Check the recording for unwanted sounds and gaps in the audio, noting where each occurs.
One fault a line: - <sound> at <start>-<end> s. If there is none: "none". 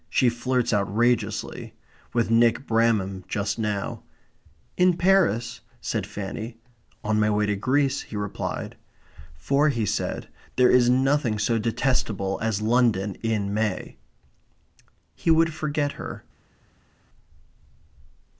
none